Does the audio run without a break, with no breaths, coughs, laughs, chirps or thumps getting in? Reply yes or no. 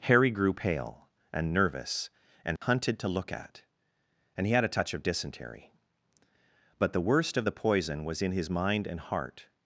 no